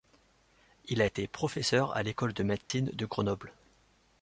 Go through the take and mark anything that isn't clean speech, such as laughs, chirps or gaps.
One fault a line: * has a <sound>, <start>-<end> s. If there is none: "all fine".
* has a dropout, 2.6-2.7 s